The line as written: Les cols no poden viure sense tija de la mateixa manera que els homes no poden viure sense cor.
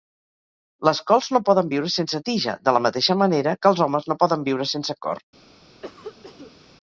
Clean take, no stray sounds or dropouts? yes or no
no